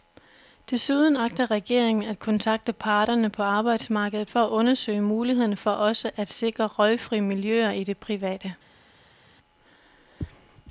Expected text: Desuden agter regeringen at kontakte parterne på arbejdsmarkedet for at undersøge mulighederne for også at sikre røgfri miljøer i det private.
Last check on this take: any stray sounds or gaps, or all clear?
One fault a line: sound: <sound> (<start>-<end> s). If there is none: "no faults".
no faults